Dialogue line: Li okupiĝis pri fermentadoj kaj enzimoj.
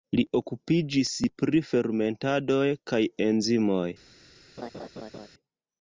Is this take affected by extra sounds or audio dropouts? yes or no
yes